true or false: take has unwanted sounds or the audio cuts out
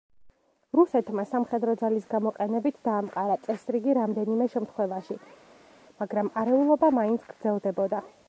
false